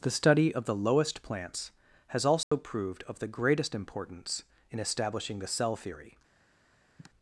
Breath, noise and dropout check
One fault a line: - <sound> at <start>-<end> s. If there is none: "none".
- dropout at 2.4-2.5 s
- sigh at 7.0-7.1 s